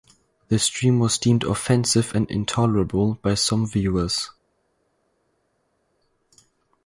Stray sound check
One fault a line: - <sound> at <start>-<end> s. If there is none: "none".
none